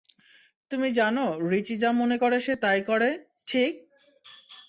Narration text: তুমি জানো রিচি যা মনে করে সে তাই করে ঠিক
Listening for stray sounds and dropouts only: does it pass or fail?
pass